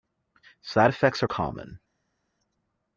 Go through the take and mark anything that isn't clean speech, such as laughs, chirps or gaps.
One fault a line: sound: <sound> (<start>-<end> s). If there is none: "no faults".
no faults